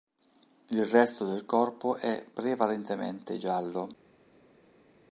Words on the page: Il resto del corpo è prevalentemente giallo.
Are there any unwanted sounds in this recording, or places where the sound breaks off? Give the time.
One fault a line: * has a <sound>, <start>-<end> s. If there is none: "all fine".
all fine